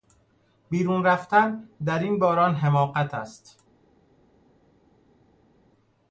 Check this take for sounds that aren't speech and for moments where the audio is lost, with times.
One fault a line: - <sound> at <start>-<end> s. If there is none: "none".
none